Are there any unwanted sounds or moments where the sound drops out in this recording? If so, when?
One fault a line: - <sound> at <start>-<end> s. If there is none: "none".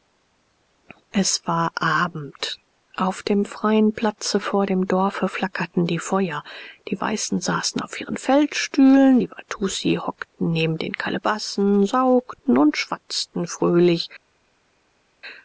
none